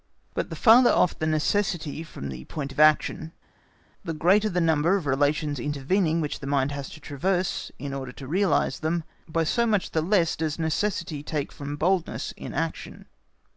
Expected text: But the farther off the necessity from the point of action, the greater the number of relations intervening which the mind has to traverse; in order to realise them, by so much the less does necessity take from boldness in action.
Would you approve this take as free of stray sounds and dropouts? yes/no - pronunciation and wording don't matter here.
yes